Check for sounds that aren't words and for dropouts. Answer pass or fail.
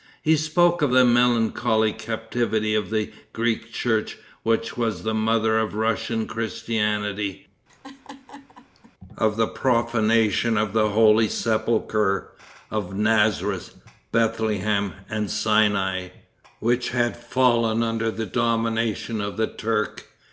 fail